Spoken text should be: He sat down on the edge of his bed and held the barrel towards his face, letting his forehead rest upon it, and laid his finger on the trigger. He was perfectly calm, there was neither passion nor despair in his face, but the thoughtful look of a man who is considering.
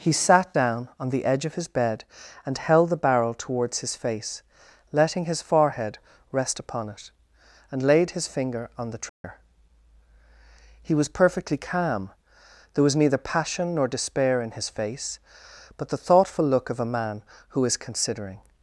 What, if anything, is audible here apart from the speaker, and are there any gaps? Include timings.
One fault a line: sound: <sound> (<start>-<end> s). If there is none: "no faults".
sound: dropout (9.1-9.2 s)